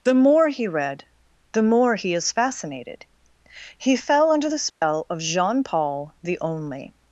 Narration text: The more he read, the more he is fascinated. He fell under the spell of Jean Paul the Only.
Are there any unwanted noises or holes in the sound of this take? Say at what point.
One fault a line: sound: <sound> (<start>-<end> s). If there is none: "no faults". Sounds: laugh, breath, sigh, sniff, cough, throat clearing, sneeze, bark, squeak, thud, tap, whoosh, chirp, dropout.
sound: dropout (4.7-4.8 s)